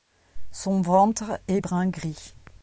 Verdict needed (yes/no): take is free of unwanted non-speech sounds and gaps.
yes